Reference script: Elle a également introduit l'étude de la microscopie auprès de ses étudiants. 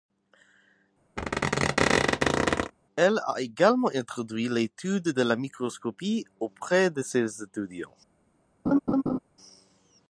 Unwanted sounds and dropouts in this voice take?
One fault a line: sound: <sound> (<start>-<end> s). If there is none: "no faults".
sound: squeak (1.2-2.7 s)
sound: laugh (8.7-9.2 s)